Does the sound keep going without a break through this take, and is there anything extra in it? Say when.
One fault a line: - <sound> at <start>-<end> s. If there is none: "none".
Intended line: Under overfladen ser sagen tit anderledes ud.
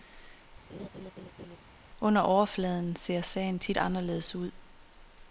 - laugh at 0.7-1.6 s